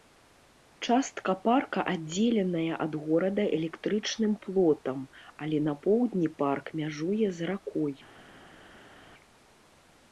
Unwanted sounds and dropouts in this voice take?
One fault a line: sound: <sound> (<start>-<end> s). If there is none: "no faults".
no faults